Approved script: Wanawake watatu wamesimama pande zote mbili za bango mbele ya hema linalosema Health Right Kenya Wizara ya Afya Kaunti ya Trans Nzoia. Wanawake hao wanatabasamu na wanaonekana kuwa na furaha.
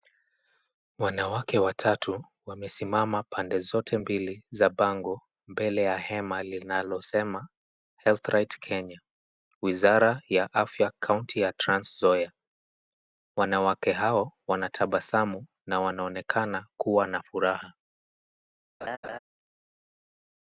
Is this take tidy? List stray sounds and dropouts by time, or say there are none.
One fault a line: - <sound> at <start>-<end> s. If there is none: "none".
- laugh at 18.8-19.2 s